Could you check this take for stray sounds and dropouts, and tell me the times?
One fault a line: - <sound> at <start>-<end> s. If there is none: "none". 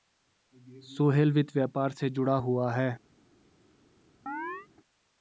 - chirp at 4.3-4.7 s